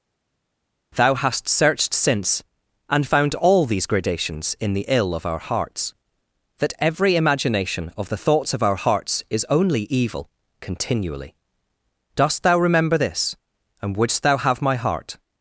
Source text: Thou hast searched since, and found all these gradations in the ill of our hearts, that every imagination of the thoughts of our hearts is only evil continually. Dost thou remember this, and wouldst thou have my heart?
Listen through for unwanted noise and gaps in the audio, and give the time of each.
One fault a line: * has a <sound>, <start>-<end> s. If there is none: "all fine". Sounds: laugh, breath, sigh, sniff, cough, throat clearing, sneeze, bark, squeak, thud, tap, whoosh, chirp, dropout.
all fine